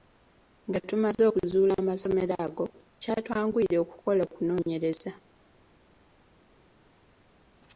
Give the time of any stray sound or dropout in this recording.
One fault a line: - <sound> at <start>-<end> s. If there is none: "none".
none